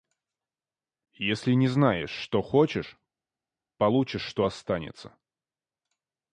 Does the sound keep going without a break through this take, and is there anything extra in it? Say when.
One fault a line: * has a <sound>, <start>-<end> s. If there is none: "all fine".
all fine